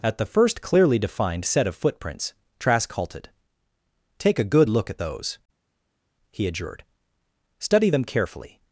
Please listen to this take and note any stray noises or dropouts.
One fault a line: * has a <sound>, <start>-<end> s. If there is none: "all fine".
all fine